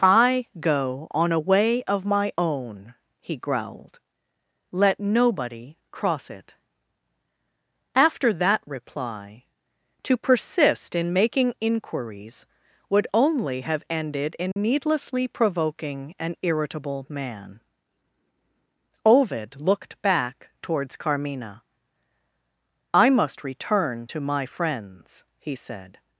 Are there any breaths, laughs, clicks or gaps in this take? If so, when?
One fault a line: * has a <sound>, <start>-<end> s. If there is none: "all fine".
* has a dropout, 14.5-14.6 s